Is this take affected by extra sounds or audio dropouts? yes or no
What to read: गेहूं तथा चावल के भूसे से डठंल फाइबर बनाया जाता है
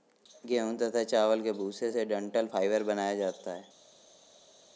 no